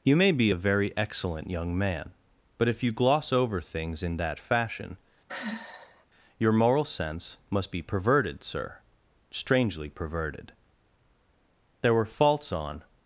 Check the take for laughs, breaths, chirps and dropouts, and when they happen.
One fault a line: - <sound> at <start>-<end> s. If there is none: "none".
- sigh at 5.3-6.1 s